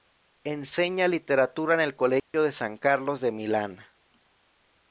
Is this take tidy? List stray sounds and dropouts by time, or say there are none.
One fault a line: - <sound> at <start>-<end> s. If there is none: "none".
- dropout at 2.2-2.3 s